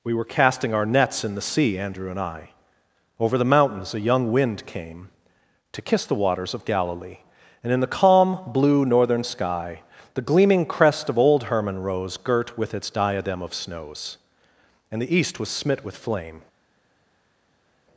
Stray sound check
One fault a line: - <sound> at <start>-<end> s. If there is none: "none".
none